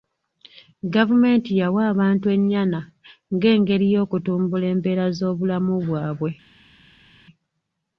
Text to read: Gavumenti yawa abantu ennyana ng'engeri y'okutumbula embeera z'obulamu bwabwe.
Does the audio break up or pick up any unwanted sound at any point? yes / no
no